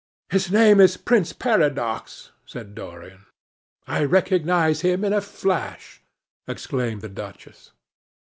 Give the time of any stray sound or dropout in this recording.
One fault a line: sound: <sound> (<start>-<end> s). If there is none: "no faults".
no faults